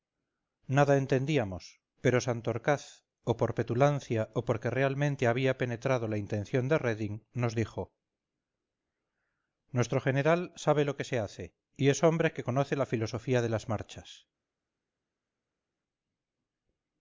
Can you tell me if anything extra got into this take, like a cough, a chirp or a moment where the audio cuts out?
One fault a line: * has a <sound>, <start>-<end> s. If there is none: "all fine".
all fine